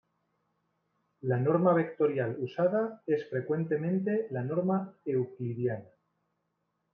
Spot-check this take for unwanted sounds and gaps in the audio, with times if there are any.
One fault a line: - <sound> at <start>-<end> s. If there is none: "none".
none